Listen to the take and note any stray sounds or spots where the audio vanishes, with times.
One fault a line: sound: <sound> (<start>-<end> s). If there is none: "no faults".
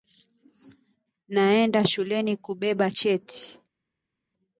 no faults